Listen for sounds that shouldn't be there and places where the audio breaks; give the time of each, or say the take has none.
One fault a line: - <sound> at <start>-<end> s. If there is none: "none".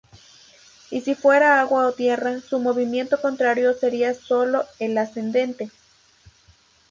none